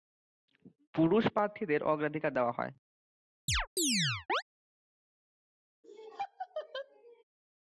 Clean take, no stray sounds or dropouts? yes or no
no